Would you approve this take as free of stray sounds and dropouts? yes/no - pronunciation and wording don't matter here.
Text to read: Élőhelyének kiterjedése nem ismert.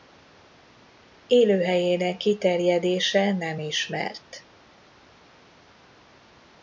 yes